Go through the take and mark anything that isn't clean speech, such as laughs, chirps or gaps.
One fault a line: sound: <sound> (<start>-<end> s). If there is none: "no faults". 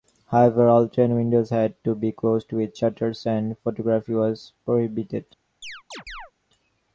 sound: chirp (5.6-6.3 s)